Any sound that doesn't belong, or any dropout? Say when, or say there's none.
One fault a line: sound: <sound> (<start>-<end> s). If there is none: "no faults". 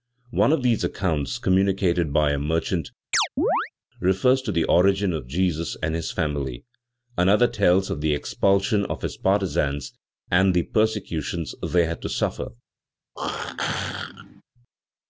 sound: chirp (3.1-3.7 s)
sound: throat clearing (13.2-14.4 s)